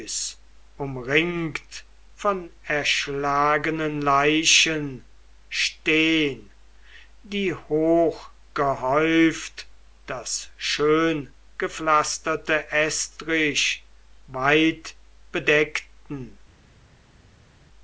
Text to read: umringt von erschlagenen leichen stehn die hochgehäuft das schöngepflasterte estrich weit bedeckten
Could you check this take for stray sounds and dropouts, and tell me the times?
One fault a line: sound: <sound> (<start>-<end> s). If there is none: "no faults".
no faults